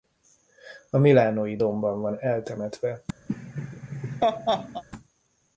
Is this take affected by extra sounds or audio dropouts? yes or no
yes